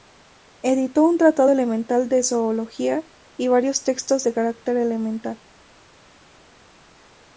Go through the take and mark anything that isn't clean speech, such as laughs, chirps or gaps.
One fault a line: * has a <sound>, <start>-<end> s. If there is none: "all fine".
all fine